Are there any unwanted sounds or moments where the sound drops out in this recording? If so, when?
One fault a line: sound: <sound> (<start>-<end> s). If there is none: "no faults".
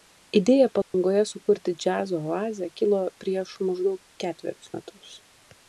sound: dropout (0.8-0.9 s)